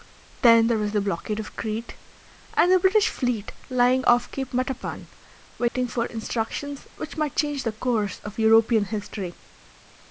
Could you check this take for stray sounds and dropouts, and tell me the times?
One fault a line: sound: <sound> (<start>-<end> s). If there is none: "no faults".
sound: dropout (5.7-5.7 s)